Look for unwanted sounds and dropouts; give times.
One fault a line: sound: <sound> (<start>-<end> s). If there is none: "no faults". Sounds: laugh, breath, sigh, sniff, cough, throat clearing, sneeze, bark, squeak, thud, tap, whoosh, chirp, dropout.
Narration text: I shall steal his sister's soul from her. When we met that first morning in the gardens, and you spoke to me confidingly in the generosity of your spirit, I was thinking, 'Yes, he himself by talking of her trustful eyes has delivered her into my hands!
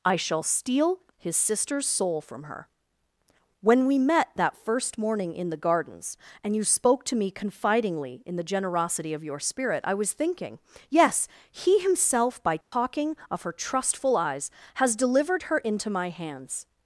sound: dropout (12.6-12.7 s)